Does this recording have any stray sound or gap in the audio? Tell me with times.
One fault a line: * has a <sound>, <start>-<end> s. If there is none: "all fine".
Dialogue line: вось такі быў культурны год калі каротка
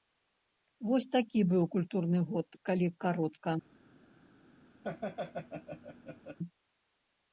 * has a laugh, 4.8-6.4 s